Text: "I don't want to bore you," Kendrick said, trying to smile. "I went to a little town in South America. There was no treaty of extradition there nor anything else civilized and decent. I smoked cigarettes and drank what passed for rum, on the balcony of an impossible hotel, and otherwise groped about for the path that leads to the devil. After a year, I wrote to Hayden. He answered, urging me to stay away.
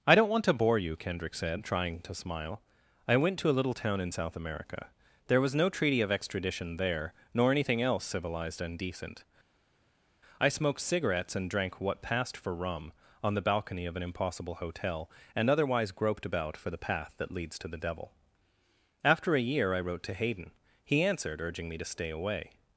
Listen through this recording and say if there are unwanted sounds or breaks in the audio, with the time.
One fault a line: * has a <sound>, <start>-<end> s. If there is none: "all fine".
all fine